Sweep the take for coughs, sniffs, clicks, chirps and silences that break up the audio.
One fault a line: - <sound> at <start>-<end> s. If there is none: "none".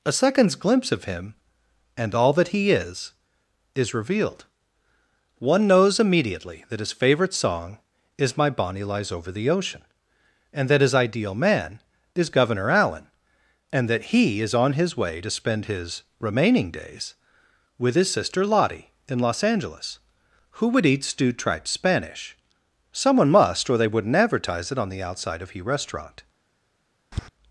- tap at 27.1-27.3 s